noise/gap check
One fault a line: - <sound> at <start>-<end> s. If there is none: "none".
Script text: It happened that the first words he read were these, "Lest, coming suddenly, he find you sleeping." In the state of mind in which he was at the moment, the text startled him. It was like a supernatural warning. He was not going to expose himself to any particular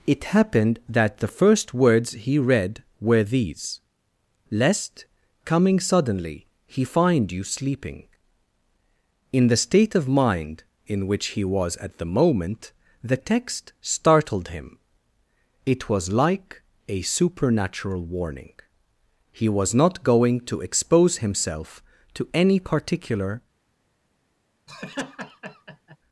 - laugh at 24.7-26.0 s